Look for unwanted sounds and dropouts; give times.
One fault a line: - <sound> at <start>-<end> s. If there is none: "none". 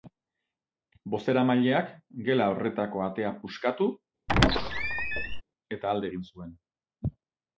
- squeak at 4.3-5.4 s